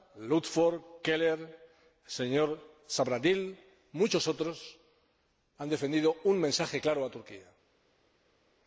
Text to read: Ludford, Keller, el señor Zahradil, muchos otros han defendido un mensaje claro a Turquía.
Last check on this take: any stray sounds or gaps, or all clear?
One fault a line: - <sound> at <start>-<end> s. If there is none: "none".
none